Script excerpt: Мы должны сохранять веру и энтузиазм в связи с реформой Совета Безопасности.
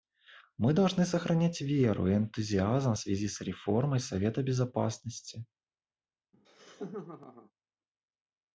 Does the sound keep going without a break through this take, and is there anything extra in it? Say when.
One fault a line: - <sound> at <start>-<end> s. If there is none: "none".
- laugh at 6.3-7.5 s